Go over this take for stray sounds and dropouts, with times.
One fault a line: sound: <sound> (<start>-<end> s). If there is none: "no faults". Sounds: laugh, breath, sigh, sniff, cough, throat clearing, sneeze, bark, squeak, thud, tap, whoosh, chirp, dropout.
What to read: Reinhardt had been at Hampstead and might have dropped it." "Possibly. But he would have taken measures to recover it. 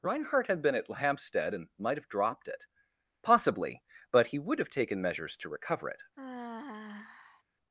sound: sigh (6.2-7.4 s)